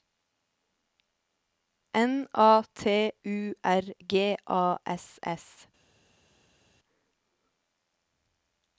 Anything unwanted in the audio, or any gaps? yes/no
no